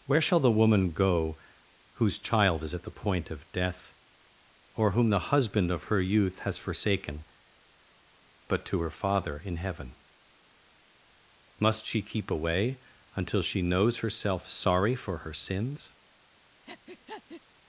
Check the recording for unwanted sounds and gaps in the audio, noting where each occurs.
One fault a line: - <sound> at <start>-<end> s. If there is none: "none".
- breath at 16.7-17.4 s